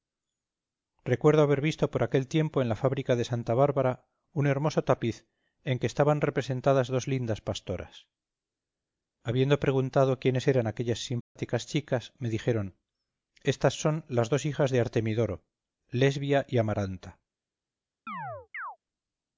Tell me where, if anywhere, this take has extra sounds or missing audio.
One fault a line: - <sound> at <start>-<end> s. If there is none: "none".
- dropout at 11.2-11.4 s
- chirp at 18.1-18.8 s